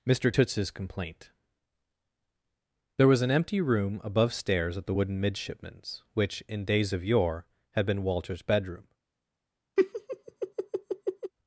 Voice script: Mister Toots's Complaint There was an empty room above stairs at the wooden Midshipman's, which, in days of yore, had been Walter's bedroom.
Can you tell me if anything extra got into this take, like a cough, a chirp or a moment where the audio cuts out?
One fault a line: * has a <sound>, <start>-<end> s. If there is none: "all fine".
* has a laugh, 9.8-11.3 s